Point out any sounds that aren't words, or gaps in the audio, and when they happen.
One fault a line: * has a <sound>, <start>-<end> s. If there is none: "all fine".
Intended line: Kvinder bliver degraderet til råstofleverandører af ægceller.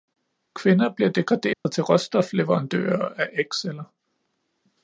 * has a dropout, 1.5-1.7 s